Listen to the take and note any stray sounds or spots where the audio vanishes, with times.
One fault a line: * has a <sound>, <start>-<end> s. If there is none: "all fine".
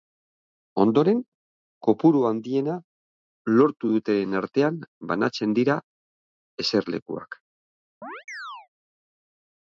* has a chirp, 8.0-8.7 s